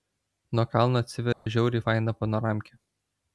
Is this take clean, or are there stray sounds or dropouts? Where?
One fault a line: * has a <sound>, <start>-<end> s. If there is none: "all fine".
* has a dropout, 1.3-1.5 s